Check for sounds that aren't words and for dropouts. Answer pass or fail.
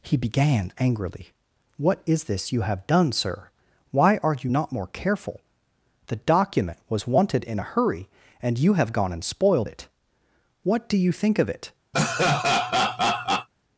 fail